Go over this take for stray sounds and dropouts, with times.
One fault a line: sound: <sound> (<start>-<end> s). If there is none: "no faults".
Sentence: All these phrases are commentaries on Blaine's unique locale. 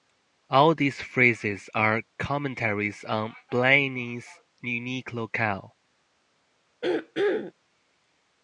sound: throat clearing (6.8-7.5 s)